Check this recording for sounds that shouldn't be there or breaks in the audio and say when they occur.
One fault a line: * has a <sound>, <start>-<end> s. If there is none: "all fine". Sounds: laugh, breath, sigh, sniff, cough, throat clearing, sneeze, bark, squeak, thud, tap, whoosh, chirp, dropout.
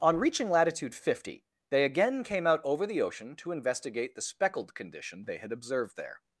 all fine